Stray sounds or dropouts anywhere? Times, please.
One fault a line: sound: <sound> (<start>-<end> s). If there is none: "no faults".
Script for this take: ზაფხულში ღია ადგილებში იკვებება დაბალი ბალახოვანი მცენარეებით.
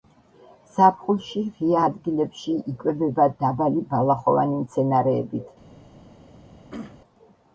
sound: throat clearing (6.7-7.0 s)